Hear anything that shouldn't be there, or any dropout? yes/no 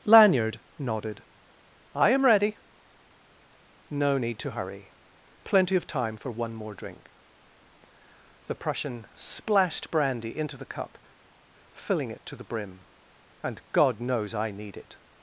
no